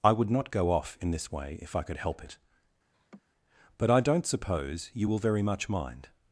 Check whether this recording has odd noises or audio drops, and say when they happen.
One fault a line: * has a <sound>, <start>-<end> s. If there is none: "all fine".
* has a laugh, 2.9-3.2 s